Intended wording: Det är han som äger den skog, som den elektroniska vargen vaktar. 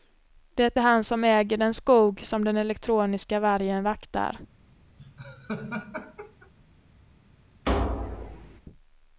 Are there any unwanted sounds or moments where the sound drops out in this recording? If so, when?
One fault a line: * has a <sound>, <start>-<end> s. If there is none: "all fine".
* has a laugh, 5.0-6.5 s
* has a thud, 7.7-8.6 s